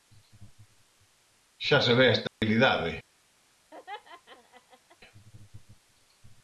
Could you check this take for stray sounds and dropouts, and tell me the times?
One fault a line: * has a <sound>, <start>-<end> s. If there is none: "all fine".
* has a dropout, 2.3-2.4 s
* has a laugh, 3.7-5.0 s